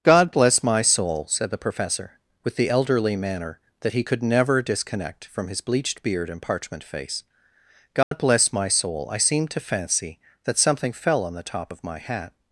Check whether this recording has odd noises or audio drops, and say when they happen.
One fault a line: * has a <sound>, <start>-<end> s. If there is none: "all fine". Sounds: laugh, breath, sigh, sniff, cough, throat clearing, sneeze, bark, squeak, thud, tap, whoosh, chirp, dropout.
* has a dropout, 8.0-8.1 s